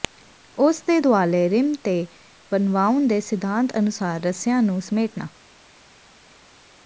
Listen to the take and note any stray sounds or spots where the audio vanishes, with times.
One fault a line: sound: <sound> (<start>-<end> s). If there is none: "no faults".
no faults